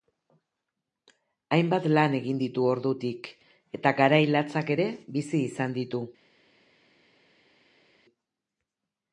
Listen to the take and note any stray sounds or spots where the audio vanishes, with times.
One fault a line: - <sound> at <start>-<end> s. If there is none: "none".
none